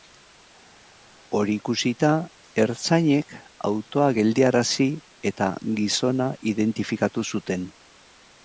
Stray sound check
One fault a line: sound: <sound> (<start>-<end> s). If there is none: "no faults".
no faults